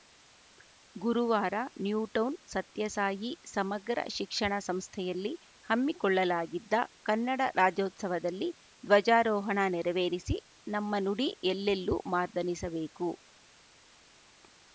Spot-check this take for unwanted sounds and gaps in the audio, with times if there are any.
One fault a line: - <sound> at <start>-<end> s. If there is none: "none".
none